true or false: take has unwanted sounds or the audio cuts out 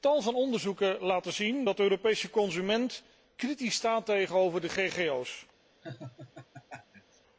true